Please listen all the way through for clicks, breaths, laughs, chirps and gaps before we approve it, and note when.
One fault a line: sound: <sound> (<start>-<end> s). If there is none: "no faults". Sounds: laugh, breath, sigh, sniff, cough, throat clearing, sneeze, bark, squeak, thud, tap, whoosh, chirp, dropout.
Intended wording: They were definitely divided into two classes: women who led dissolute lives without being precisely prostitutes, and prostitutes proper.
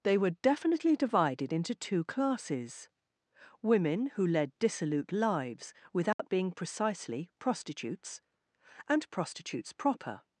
sound: dropout (6.1-6.2 s)